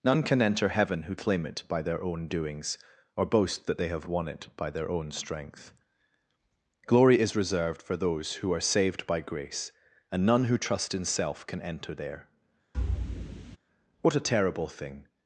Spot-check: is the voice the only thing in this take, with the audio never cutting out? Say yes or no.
no